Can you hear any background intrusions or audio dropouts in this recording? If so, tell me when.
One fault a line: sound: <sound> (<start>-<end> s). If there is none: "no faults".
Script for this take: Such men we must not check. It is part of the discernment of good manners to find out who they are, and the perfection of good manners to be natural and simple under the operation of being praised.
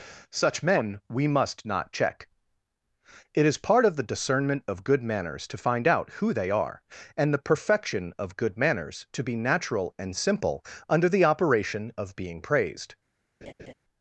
sound: laugh (13.4-13.7 s)